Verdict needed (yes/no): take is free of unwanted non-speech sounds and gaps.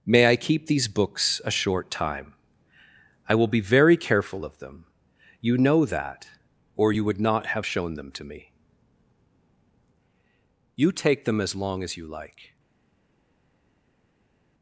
yes